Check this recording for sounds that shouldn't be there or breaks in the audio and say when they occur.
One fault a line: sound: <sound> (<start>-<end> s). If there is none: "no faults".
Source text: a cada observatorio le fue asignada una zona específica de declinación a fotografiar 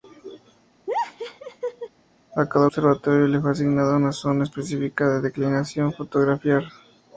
sound: laugh (0.9-1.9 s)